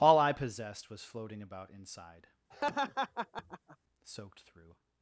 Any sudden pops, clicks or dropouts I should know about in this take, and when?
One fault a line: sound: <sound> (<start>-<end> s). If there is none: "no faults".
sound: laugh (2.5-3.8 s)